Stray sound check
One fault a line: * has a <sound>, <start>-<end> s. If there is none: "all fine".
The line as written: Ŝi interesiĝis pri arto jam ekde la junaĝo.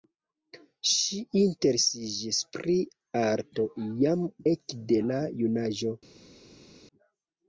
all fine